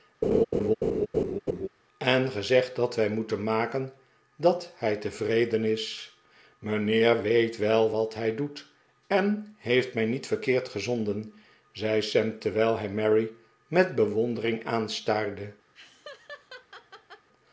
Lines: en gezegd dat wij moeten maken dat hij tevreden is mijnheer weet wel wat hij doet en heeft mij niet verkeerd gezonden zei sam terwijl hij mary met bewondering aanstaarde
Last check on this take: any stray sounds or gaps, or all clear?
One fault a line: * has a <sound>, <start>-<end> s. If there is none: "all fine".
* has a laugh, 0.2-1.7 s
* has a laugh, 15.7-17.3 s